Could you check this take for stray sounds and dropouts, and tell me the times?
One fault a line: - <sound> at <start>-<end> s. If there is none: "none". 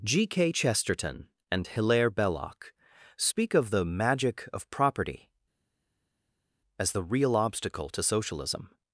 none